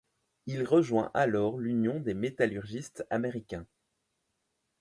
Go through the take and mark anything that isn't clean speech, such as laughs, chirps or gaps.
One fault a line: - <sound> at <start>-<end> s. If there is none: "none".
none